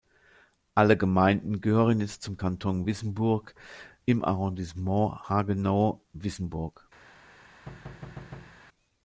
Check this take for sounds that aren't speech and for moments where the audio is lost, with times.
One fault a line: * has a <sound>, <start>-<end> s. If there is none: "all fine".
* has a thud, 7.7-8.6 s